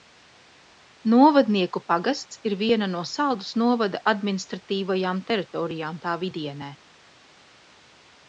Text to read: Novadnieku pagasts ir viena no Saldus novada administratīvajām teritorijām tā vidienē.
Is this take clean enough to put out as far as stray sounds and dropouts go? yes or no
yes